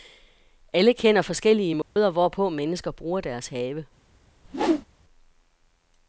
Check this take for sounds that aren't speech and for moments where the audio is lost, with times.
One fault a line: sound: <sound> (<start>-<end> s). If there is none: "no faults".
sound: dropout (1.8-2.0 s)
sound: whoosh (4.4-4.9 s)